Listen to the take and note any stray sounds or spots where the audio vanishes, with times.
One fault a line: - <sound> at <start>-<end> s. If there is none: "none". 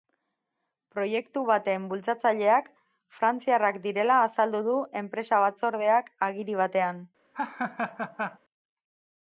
- laugh at 7.3-8.4 s